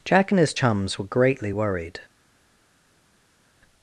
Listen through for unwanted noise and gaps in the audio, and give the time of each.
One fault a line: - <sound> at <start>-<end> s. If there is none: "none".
none